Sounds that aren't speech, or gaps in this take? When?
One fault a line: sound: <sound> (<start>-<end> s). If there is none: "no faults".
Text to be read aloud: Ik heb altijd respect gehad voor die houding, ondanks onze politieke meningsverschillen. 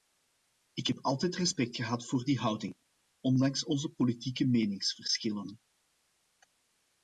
no faults